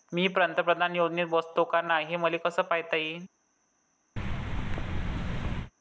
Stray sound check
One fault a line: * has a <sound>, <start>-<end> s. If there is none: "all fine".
* has a thud, 4.2-5.7 s